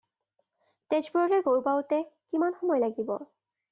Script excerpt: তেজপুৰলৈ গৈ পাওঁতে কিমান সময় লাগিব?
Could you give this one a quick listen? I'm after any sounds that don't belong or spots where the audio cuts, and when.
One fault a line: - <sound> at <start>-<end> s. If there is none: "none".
none